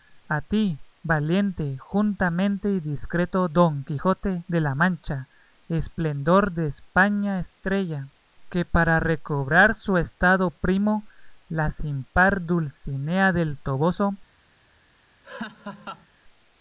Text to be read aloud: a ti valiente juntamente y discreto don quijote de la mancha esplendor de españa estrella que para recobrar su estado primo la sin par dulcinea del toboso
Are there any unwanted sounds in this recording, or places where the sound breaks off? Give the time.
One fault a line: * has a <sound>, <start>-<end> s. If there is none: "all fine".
* has a laugh, 15.2-16.1 s